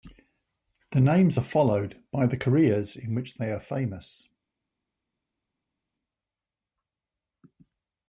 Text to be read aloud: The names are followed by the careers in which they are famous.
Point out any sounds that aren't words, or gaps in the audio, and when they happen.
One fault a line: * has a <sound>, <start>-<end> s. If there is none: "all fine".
all fine